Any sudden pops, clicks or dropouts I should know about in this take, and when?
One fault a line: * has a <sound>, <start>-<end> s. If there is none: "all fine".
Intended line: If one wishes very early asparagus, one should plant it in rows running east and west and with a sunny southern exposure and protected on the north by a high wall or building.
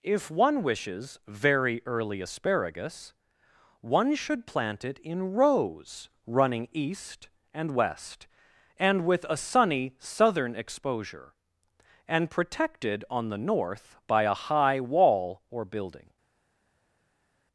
all fine